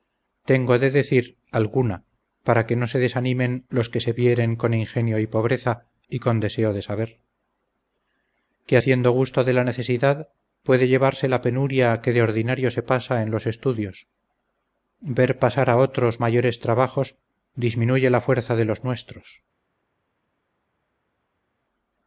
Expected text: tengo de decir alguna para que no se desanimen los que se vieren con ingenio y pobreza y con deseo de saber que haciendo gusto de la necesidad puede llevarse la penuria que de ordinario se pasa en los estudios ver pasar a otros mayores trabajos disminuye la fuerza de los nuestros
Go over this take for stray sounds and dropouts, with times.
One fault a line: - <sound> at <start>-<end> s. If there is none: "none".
none